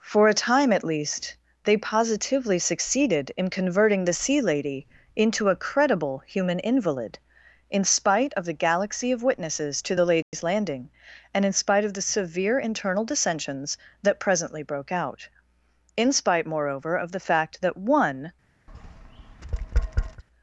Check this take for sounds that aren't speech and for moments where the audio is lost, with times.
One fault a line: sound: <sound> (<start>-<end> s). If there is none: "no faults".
sound: dropout (10.2-10.3 s)
sound: tap (18.7-20.2 s)